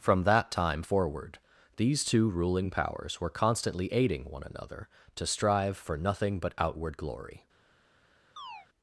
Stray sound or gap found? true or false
true